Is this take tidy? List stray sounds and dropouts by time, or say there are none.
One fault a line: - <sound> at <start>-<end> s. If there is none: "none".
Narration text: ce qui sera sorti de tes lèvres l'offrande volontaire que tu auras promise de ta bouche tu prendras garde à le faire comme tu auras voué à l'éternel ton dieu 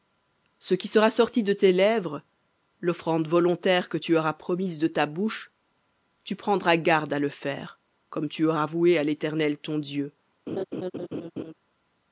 - laugh at 10.5-11.5 s